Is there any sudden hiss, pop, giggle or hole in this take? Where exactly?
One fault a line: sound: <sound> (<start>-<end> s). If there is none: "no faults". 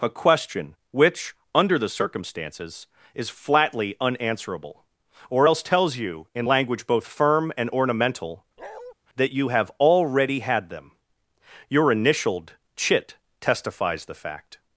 sound: bark (8.6-8.9 s)